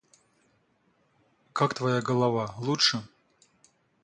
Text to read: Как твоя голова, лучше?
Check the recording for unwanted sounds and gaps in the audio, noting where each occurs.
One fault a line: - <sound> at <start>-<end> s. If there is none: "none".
none